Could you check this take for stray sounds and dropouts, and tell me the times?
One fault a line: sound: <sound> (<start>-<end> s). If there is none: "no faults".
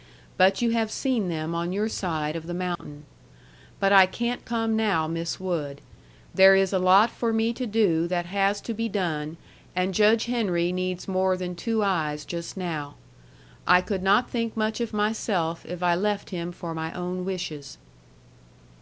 sound: dropout (2.8-2.8 s)